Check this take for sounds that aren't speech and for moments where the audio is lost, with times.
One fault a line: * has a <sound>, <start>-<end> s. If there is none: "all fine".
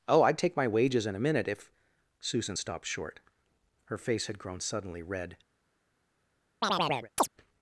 * has a chirp, 6.6-7.3 s